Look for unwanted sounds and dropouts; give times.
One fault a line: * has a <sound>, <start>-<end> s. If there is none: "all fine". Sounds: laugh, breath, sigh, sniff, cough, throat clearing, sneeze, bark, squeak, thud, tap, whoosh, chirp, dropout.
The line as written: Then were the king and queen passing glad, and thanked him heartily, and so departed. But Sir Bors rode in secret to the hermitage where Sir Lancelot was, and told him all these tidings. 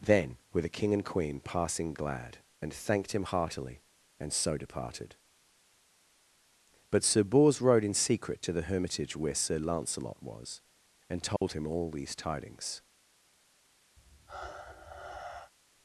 * has a dropout, 11.4-11.4 s
* has a sigh, 14.0-15.5 s